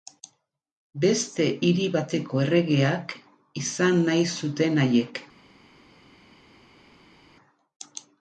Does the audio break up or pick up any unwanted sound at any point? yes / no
no